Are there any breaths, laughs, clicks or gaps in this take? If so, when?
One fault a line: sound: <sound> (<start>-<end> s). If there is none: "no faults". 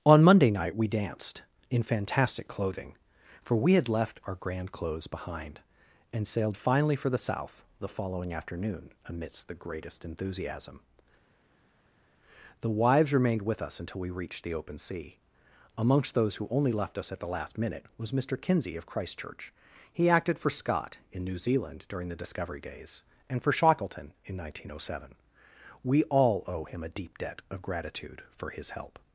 no faults